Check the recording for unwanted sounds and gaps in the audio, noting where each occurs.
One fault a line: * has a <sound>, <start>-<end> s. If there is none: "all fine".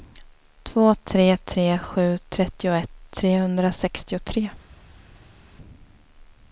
all fine